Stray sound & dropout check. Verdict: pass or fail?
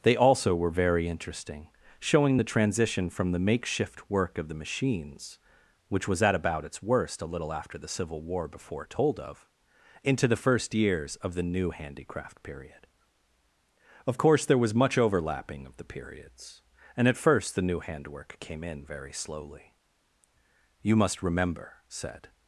pass